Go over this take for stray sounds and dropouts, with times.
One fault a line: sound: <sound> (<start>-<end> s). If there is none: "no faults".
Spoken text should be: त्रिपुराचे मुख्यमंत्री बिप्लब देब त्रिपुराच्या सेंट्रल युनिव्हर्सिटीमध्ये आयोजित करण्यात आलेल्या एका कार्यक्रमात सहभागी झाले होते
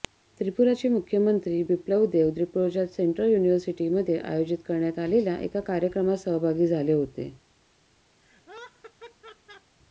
sound: laugh (8.2-9.8 s)